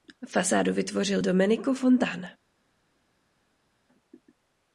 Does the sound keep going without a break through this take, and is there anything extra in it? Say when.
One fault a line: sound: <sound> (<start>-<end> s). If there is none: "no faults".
no faults